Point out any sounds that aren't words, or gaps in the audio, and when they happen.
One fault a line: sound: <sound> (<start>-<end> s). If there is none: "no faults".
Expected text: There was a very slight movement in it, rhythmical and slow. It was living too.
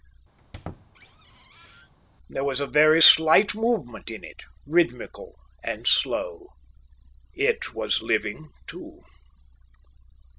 sound: squeak (0.4-1.9 s)